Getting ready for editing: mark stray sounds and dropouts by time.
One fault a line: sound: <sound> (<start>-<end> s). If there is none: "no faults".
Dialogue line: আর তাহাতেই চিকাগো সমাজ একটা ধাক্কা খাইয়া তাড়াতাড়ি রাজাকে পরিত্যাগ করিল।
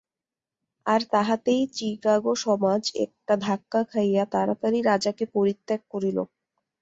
no faults